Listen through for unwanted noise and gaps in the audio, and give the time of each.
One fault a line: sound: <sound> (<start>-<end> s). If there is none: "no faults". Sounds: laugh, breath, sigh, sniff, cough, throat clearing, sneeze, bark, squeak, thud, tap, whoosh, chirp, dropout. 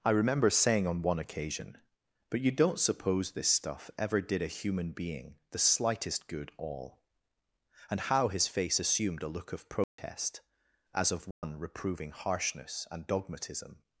sound: dropout (9.8-10.0 s)
sound: dropout (11.3-11.4 s)